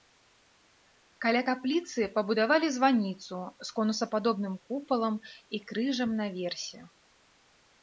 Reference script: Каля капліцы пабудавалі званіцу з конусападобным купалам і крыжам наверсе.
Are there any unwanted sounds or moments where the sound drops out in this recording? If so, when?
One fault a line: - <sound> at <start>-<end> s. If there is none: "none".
none